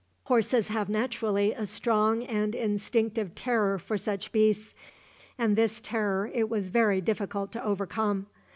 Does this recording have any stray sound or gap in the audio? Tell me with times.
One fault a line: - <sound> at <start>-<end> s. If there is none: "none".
none